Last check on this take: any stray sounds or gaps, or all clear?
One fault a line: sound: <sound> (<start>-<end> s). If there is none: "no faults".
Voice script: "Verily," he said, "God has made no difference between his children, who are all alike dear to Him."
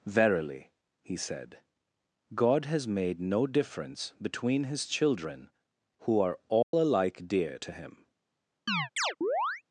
sound: dropout (6.6-6.7 s)
sound: chirp (8.7-9.6 s)